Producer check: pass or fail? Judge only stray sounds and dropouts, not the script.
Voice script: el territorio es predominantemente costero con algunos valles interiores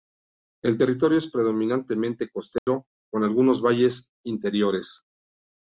fail